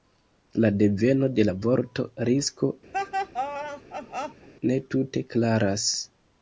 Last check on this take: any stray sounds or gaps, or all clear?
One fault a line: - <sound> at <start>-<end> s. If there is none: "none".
- laugh at 2.9-4.5 s